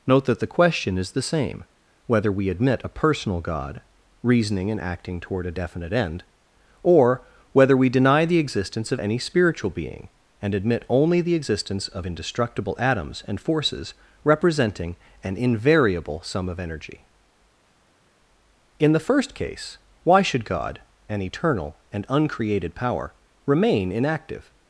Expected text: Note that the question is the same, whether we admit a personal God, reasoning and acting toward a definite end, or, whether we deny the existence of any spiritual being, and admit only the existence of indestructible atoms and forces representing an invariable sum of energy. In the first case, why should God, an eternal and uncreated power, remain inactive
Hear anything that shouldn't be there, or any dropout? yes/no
no